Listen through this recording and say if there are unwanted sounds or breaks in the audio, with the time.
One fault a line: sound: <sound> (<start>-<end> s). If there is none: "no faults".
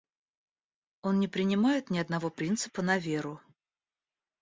no faults